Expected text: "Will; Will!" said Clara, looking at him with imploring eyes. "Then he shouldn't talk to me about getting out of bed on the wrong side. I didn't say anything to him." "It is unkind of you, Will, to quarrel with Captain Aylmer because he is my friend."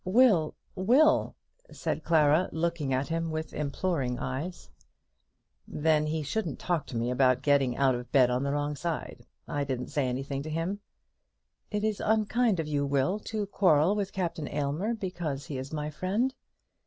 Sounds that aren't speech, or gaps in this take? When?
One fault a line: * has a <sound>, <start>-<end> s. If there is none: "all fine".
all fine